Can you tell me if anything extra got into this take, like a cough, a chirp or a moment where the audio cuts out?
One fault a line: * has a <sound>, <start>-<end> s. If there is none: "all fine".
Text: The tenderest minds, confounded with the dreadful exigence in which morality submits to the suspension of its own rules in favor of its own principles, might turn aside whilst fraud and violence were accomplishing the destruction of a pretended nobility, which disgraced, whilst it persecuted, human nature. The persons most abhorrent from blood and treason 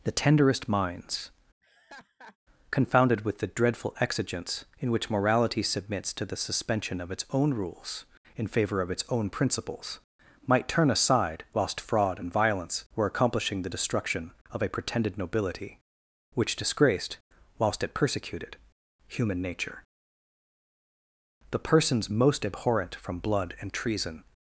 * has a laugh, 1.6-2.4 s